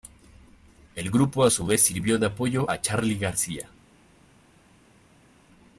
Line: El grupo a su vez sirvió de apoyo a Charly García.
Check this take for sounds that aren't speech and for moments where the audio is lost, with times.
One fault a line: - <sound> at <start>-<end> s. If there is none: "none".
none